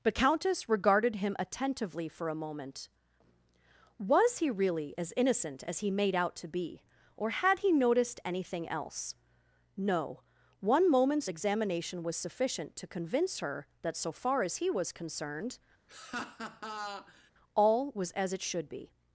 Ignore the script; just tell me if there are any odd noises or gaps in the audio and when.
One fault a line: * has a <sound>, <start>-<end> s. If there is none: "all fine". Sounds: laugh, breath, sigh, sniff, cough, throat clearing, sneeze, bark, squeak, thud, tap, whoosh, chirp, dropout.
* has a laugh, 15.9-17.3 s